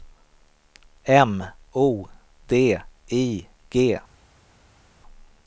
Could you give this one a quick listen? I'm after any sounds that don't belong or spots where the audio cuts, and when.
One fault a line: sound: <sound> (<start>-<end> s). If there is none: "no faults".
no faults